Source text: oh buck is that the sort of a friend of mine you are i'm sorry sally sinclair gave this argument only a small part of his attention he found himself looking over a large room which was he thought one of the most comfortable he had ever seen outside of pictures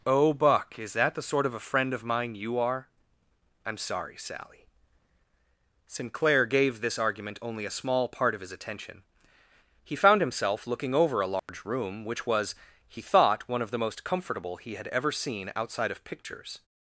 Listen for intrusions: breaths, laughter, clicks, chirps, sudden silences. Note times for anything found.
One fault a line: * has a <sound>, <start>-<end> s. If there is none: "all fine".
* has a dropout, 11.4-11.5 s